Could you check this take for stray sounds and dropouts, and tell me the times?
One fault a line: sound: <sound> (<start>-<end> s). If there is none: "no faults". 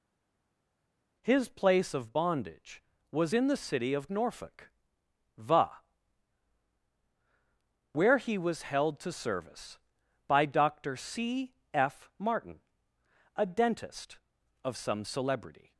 no faults